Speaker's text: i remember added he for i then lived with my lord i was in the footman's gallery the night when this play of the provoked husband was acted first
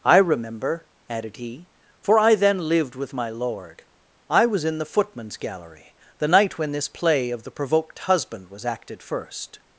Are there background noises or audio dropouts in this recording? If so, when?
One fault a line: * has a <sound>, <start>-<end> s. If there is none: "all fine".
all fine